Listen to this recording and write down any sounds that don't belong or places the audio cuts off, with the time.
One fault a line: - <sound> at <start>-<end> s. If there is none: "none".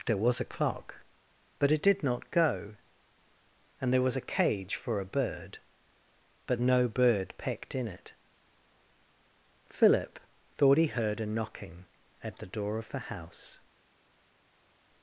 none